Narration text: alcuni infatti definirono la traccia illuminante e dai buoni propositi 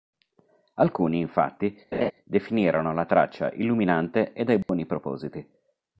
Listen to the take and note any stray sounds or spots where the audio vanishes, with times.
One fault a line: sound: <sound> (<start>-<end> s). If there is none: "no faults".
sound: laugh (1.9-2.1 s)
sound: dropout (4.6-4.7 s)